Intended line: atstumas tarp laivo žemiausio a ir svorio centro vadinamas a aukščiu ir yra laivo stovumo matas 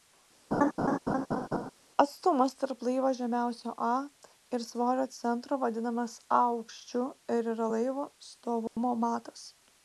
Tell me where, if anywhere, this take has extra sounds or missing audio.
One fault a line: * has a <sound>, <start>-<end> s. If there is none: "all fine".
* has a laugh, 0.5-1.7 s
* has a dropout, 8.7-8.8 s